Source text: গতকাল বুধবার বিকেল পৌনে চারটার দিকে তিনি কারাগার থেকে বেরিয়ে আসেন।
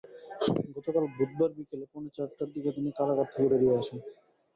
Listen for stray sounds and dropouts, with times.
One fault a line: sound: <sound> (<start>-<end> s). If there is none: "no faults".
no faults